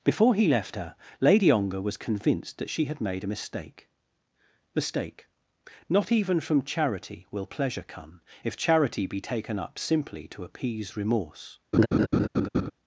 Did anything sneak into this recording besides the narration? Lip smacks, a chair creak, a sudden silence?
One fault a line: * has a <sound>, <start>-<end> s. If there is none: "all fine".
* has a laugh, 11.7-12.7 s